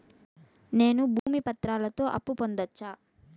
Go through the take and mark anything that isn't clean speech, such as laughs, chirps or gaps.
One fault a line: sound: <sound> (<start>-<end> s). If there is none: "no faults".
sound: dropout (1.2-1.3 s)